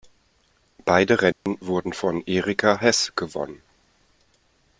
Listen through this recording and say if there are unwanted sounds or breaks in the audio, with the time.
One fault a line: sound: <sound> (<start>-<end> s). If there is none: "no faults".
sound: dropout (1.3-1.5 s)